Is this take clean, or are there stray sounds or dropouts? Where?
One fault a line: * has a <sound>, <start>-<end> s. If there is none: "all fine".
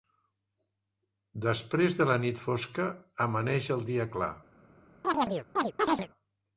* has a chirp, 5.0-6.1 s